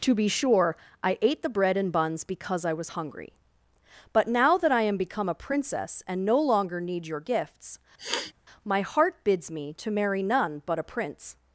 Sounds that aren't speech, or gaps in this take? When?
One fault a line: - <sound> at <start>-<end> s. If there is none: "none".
- sniff at 8.0-8.3 s